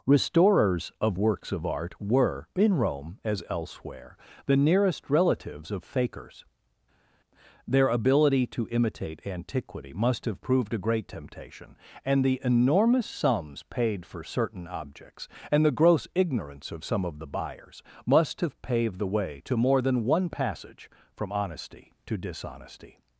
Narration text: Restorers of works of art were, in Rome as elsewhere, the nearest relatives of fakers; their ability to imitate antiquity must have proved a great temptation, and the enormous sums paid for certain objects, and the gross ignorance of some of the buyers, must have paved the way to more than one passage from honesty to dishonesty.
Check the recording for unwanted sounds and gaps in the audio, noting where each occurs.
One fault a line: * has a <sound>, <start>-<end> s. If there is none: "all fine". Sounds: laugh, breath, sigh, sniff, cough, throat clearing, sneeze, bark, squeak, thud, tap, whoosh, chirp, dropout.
all fine